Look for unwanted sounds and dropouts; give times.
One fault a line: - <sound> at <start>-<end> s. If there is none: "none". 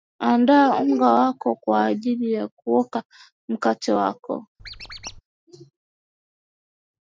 - squeak at 4.6-5.2 s